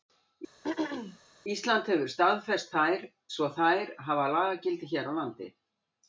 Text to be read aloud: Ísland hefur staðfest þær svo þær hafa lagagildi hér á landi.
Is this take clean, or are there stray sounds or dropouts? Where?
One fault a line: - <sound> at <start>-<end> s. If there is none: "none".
- throat clearing at 0.6-1.2 s